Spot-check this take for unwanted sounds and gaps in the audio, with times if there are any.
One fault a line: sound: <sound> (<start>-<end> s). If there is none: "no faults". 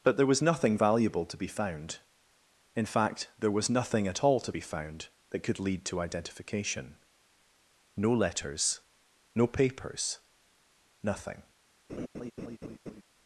sound: laugh (11.9-13.0 s)